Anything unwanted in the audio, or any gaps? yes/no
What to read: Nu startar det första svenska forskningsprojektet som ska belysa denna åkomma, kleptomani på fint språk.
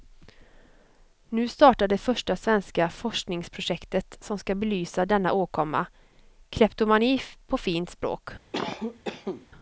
yes